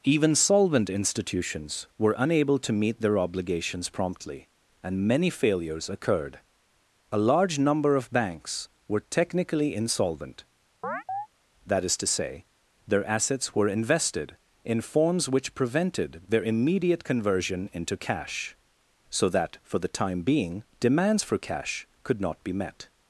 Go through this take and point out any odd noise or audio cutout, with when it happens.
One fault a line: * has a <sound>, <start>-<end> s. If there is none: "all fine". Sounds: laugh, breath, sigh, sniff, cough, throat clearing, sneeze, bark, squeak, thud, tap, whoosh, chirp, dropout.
* has a chirp, 10.8-11.3 s